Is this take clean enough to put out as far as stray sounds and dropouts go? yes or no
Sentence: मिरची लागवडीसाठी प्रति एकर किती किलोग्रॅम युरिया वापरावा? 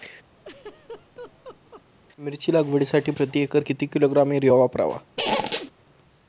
no